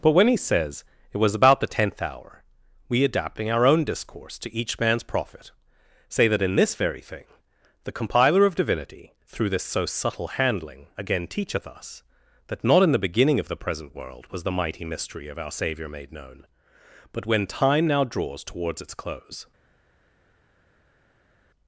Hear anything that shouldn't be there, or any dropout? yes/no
no